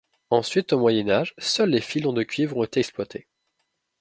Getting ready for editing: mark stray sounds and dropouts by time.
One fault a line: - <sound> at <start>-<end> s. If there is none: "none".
none